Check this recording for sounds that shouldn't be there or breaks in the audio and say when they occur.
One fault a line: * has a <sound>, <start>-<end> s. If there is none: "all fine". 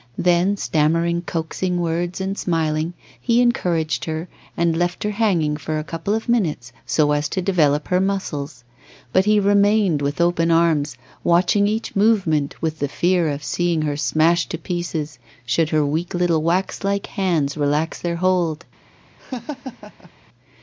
* has a laugh, 19.2-20.1 s